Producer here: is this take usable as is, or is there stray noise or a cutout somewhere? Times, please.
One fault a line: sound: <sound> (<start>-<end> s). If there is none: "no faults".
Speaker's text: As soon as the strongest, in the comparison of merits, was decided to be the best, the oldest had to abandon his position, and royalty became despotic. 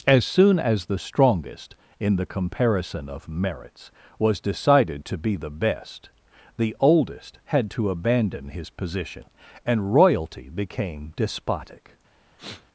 sound: sniff (12.4-12.7 s)